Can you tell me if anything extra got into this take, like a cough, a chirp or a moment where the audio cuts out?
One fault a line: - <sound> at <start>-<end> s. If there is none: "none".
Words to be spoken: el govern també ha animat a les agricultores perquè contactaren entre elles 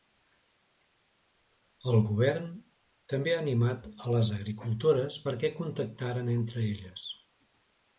none